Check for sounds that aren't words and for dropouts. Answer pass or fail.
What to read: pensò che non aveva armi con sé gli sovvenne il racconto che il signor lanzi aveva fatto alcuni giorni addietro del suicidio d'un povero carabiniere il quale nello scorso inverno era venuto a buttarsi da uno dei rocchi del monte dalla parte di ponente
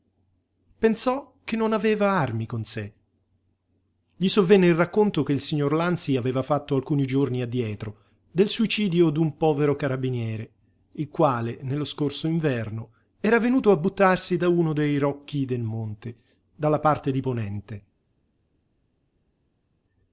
pass